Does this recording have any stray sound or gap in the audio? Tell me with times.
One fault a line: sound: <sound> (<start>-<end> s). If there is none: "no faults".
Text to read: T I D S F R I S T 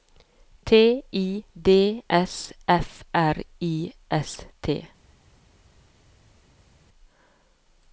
no faults